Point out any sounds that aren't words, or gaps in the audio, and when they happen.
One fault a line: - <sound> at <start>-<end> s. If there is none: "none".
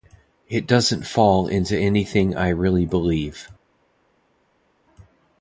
none